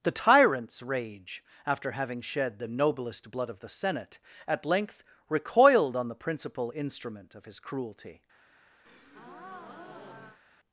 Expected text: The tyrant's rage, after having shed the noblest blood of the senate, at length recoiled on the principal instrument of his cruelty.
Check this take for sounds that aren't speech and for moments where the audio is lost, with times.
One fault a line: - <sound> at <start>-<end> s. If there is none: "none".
- breath at 8.9-10.4 s